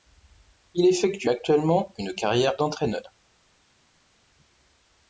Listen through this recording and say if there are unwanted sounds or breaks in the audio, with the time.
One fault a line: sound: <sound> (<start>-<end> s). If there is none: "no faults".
no faults